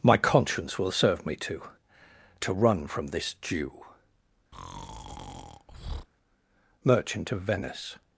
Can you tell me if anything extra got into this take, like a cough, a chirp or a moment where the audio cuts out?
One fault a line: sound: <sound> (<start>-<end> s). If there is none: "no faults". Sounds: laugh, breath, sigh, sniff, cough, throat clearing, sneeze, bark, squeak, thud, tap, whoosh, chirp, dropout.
sound: breath (4.5-6.1 s)